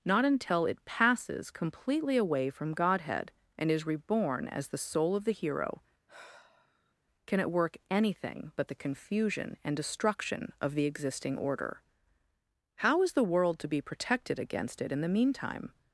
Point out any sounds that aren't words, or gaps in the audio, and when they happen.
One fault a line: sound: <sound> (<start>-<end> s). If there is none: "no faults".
sound: sigh (6.1-6.9 s)